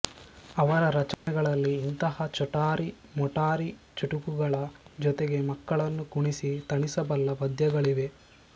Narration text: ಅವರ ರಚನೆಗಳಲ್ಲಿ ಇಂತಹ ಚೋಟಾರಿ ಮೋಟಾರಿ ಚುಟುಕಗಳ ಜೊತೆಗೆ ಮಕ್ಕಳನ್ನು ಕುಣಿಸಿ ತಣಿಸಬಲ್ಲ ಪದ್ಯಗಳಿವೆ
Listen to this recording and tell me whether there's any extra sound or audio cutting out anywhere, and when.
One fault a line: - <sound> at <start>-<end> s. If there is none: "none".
- dropout at 1.1-1.3 s